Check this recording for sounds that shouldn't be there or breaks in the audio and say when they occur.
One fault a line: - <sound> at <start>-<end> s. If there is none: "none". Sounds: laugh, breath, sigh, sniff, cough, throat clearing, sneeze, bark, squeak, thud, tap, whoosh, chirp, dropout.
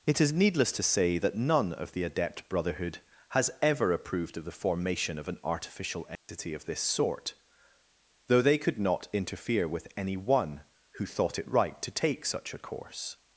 - dropout at 6.2-6.3 s